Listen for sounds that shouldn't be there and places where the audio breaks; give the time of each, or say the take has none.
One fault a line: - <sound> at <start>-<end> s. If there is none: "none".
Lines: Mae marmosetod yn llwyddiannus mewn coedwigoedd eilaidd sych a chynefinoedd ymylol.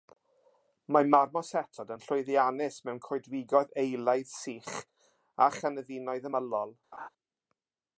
- laugh at 6.9-7.1 s